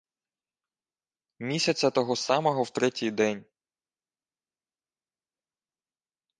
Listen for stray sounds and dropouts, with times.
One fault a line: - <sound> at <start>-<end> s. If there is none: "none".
none